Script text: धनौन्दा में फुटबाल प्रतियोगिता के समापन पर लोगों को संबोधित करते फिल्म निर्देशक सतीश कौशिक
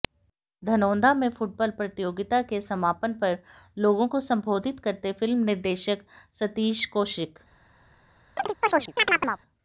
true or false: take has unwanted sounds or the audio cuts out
true